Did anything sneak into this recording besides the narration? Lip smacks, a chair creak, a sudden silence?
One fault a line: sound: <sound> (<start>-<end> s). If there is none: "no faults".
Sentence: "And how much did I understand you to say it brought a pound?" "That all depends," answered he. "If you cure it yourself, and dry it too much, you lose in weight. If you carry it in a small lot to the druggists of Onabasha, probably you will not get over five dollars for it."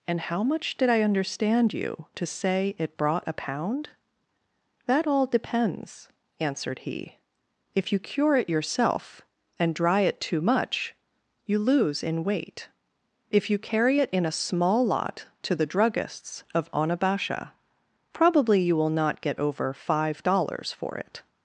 no faults